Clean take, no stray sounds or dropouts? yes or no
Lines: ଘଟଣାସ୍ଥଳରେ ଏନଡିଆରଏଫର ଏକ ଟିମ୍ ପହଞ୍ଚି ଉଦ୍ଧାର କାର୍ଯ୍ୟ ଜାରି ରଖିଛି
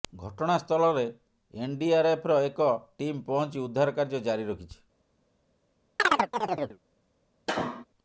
no